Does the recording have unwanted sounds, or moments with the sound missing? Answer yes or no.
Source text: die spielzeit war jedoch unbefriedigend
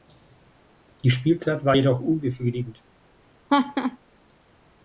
yes